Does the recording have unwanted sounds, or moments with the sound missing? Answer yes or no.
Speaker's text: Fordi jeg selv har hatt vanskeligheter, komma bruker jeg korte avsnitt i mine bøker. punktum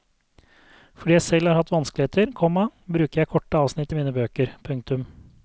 no